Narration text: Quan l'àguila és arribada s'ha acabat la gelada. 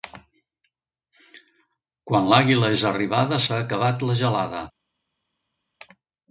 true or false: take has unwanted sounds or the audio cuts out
false